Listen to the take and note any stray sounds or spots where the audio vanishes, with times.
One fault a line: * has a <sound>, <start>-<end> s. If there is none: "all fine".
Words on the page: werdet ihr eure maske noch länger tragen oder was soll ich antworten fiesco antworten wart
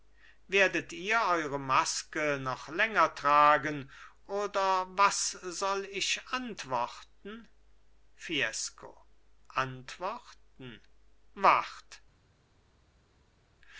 all fine